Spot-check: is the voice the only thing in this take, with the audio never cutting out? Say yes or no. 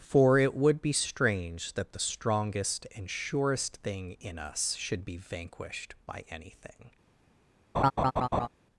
no